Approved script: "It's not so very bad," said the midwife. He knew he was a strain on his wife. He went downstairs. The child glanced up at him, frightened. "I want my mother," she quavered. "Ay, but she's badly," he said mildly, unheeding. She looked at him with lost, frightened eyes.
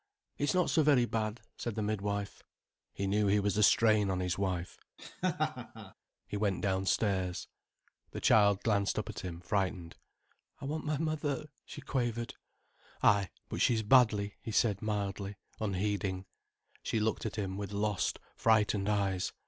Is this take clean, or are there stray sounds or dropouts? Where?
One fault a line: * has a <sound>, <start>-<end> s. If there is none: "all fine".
* has a laugh, 5.0-5.9 s